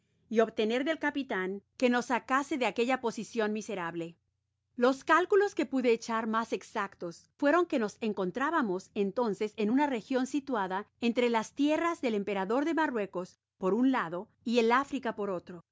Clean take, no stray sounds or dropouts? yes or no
yes